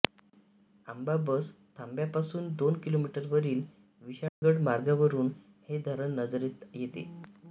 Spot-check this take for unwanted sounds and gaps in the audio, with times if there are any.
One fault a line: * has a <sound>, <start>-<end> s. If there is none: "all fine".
* has a dropout, 4.3-4.4 s